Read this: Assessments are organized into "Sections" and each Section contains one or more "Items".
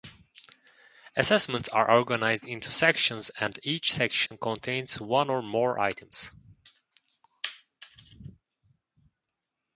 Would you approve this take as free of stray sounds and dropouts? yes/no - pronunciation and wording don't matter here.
no